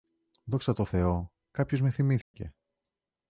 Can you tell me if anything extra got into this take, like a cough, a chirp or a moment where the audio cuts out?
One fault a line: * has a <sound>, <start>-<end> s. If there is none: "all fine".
* has a dropout, 2.2-2.3 s